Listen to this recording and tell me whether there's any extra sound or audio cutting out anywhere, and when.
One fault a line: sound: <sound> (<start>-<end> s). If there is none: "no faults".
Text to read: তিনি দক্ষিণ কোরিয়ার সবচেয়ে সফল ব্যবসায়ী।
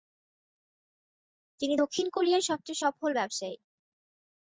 no faults